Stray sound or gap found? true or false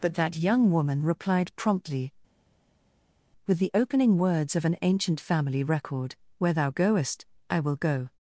false